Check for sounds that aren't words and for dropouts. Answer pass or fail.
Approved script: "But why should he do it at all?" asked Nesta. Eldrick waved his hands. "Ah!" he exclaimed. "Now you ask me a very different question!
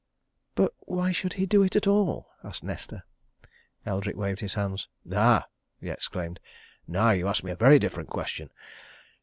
pass